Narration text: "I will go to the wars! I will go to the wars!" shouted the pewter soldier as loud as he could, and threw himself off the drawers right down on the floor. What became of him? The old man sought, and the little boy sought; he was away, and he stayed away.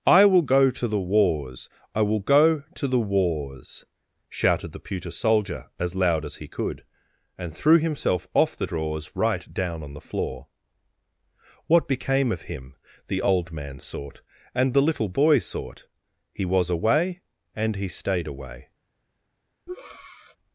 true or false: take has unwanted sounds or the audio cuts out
true